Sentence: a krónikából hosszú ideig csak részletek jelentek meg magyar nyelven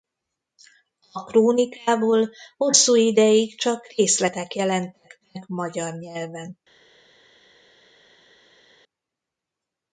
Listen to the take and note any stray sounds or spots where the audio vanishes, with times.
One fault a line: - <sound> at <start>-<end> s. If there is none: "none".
none